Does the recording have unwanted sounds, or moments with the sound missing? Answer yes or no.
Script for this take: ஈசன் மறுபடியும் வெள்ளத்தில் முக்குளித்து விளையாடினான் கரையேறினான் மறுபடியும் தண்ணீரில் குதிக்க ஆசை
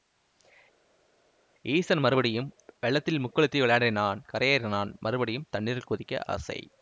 no